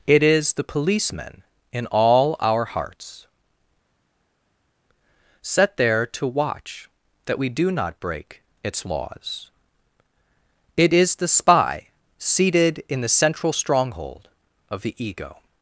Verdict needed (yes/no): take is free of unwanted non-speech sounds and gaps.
yes